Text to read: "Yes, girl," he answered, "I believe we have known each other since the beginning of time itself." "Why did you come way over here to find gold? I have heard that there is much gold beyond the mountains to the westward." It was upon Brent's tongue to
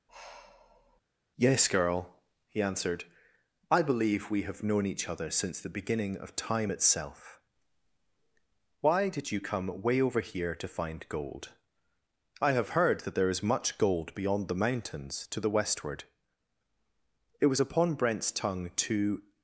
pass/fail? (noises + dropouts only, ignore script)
fail